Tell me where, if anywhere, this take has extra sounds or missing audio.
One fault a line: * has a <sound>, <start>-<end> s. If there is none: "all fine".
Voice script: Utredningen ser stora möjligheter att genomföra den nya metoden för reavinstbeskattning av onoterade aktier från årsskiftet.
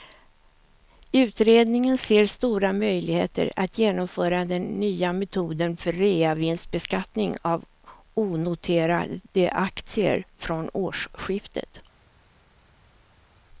all fine